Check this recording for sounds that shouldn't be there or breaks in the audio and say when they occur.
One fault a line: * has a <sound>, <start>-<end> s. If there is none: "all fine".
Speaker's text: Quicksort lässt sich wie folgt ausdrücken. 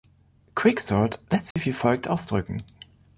* has a dropout, 1.5-1.6 s